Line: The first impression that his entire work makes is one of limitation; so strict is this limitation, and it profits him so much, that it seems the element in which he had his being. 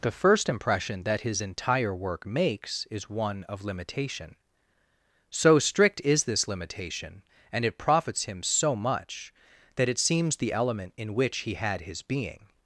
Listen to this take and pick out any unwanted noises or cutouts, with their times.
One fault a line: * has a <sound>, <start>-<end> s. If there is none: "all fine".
all fine